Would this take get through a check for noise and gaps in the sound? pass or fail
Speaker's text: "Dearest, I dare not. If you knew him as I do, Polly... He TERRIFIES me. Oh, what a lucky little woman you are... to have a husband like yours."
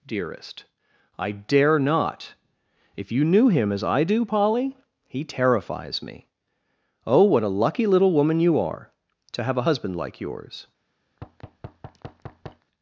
fail